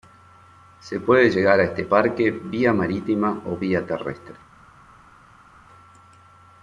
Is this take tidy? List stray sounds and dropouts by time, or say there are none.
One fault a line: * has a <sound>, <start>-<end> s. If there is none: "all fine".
all fine